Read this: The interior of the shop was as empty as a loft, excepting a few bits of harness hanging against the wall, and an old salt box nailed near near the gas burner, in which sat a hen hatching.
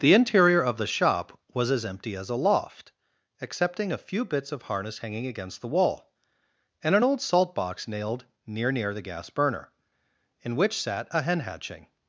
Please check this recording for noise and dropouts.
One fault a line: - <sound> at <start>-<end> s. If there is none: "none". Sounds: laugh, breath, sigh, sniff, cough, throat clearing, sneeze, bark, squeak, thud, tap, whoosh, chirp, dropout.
none